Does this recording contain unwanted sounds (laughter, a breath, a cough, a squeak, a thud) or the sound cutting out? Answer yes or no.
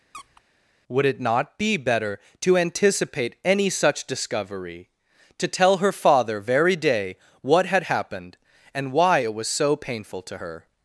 yes